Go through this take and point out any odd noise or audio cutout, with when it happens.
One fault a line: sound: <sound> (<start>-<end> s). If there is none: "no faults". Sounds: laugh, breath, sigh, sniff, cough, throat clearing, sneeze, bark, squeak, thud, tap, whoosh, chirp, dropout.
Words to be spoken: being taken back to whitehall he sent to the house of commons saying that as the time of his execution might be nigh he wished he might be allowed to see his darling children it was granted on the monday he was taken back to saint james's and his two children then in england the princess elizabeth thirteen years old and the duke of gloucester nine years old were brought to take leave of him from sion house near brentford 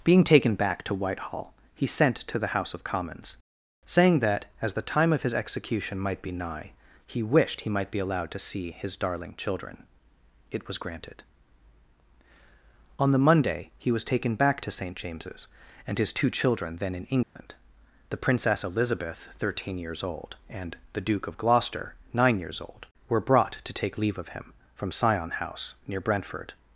sound: dropout (17.2-17.4 s)